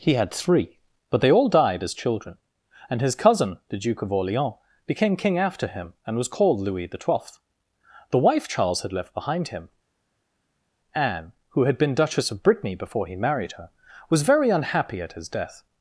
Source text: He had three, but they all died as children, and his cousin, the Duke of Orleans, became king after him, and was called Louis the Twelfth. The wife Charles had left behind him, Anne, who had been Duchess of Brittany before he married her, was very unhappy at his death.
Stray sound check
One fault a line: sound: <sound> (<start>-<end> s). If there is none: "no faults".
no faults